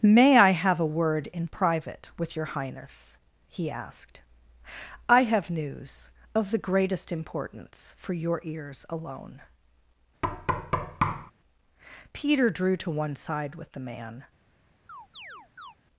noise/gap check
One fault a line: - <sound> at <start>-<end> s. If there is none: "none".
- thud at 10.2-11.3 s
- chirp at 14.9-15.8 s